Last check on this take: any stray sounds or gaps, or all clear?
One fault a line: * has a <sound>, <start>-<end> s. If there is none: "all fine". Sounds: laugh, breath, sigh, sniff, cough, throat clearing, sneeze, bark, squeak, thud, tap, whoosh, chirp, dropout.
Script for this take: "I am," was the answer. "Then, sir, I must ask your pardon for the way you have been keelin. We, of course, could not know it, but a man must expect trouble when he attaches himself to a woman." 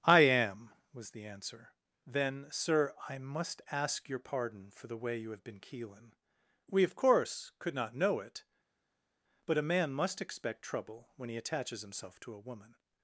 all fine